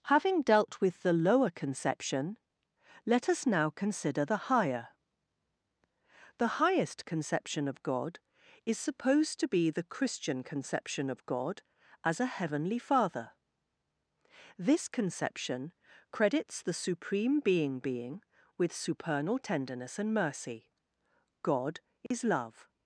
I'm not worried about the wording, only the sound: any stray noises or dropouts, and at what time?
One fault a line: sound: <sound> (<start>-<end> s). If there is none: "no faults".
sound: dropout (22.1-22.1 s)